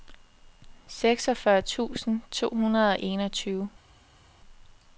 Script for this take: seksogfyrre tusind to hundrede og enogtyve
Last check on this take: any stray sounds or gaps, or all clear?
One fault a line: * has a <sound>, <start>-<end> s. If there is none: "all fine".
all fine